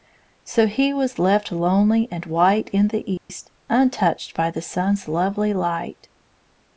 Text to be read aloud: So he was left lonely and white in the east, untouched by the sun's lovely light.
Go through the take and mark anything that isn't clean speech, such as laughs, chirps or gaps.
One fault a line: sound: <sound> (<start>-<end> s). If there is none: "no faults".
sound: dropout (3.2-3.3 s)